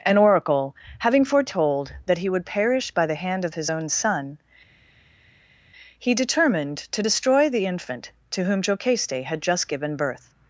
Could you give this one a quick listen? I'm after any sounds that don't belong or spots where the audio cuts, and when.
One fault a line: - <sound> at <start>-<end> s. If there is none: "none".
none